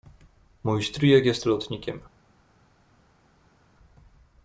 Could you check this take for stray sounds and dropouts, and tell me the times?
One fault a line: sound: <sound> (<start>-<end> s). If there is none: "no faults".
no faults